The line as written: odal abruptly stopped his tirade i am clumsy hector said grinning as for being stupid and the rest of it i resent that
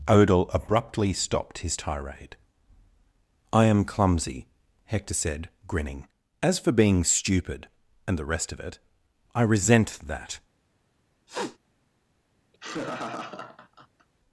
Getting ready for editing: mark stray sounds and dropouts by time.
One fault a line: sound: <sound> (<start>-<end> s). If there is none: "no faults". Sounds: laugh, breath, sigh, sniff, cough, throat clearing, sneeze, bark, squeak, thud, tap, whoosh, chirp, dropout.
sound: sniff (11.3-11.6 s)
sound: laugh (12.5-14.1 s)